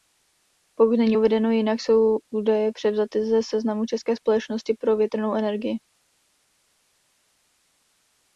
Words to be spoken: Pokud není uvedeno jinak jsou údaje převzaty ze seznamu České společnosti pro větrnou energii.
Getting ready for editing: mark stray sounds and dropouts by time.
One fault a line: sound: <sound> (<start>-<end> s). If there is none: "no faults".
no faults